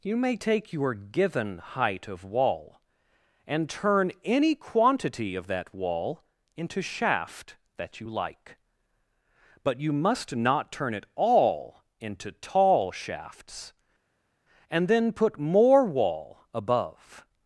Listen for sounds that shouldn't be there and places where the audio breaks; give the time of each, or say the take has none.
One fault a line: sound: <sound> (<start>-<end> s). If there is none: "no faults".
no faults